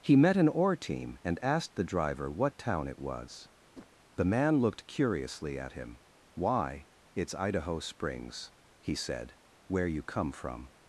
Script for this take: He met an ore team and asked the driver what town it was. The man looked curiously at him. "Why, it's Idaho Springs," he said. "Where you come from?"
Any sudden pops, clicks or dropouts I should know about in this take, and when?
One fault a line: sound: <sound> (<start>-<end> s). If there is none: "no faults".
sound: whoosh (3.7-3.9 s)